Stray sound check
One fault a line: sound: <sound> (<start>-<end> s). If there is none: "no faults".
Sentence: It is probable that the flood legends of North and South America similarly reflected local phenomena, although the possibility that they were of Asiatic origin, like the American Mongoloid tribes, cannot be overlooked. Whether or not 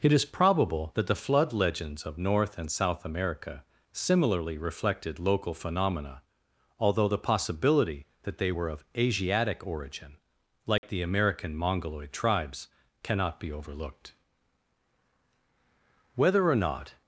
sound: dropout (10.8-10.8 s)